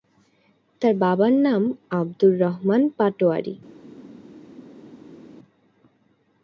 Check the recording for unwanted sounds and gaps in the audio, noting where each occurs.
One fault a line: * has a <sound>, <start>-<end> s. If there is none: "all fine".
all fine